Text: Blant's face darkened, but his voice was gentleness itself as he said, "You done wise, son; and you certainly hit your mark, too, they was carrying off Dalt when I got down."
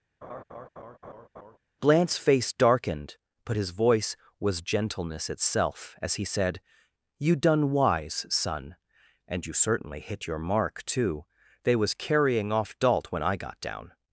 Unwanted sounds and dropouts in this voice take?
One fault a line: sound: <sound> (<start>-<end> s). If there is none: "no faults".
sound: laugh (0.2-1.6 s)